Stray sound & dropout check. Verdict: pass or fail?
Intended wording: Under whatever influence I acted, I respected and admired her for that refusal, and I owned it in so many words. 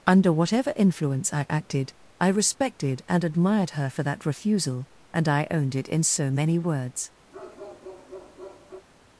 fail